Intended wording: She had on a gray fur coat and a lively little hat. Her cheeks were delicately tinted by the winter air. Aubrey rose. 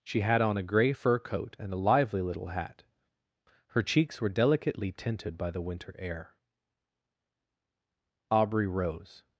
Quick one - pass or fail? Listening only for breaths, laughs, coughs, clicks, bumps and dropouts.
pass